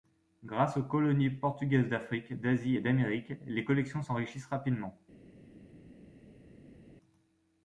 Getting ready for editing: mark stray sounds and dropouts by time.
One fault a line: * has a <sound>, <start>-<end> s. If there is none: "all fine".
all fine